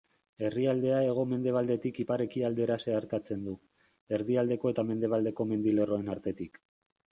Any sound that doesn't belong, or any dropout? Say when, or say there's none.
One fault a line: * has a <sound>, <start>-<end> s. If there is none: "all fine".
all fine